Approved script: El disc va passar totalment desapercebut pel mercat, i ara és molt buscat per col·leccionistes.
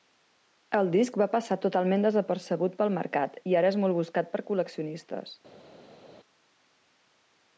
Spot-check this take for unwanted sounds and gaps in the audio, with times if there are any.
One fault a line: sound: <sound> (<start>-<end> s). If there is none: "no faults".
no faults